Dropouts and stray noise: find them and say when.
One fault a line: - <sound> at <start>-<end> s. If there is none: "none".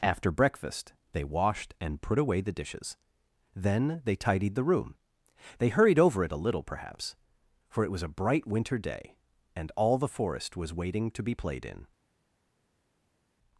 none